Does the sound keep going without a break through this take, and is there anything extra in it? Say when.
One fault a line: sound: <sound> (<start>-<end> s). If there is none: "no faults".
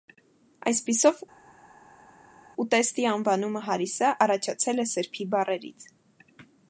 no faults